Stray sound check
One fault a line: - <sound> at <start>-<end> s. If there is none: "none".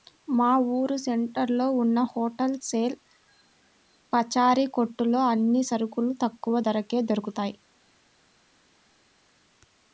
none